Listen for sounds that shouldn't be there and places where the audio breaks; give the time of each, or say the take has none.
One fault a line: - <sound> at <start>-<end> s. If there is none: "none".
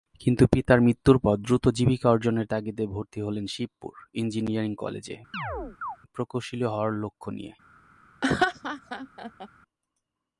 - chirp at 5.3-6.0 s
- laugh at 8.2-9.5 s